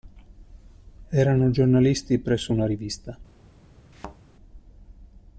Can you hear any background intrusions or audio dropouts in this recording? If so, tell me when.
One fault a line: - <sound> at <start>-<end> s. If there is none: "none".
- thud at 3.9-4.2 s